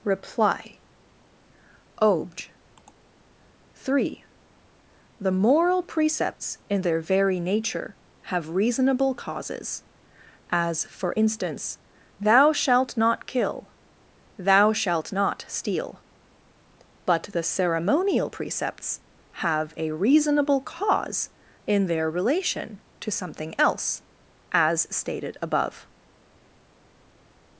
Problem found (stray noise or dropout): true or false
false